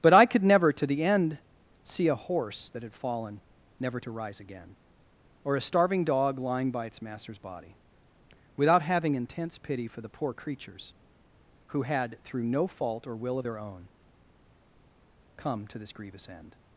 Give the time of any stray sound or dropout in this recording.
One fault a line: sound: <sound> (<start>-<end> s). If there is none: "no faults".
no faults